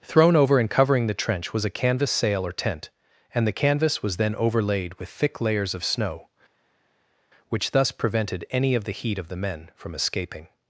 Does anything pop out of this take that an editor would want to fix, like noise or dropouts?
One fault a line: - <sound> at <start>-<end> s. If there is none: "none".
none